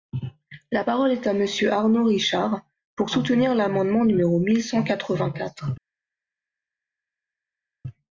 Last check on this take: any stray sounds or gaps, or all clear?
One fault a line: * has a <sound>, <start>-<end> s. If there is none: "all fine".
all fine